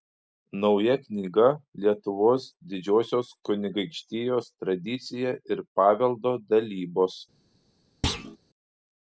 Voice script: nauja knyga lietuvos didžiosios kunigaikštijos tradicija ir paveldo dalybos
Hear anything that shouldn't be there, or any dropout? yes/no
yes